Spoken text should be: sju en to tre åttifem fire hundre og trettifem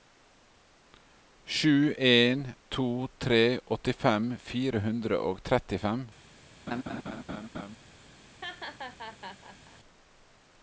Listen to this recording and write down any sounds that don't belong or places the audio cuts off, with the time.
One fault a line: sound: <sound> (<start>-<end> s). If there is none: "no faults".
sound: laugh (6.7-7.8 s)
sound: laugh (8.4-9.8 s)